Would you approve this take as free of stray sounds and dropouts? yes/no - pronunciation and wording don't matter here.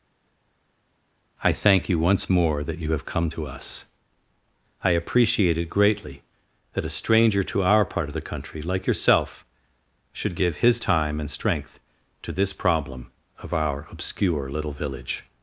yes